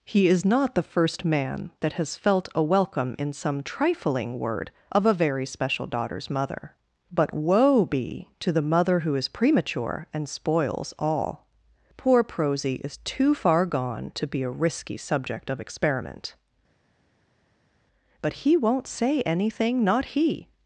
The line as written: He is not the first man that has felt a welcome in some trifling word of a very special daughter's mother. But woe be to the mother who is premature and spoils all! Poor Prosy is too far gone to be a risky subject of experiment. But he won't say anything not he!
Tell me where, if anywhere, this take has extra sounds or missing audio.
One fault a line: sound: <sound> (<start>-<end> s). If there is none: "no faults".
no faults